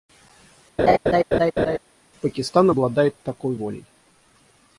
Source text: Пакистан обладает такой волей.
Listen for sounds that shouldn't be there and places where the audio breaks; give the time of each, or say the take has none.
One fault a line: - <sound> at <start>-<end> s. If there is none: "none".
- laugh at 0.8-1.8 s